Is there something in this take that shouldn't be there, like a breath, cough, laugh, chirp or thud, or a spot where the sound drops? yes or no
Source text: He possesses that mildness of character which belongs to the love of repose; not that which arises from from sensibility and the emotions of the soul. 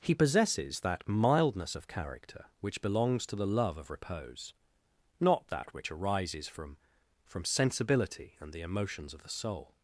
no